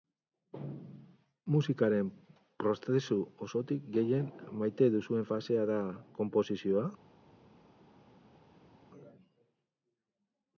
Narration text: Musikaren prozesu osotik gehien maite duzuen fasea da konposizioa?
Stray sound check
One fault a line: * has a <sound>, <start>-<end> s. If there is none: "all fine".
all fine